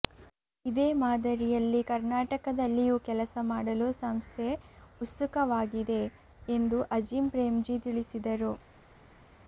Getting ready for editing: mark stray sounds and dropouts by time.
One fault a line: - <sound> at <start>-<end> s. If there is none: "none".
none